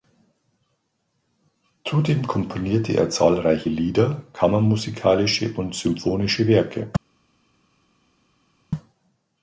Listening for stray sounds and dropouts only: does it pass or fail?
pass